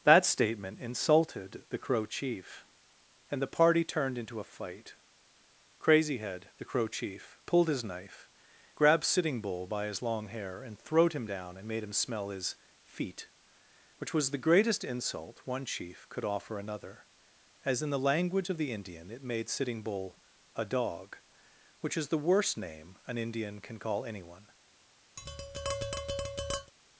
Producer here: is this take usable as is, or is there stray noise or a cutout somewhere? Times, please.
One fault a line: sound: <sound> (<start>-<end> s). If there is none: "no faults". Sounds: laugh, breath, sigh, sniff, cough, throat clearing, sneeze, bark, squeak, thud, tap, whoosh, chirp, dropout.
sound: tap (25.2-26.7 s)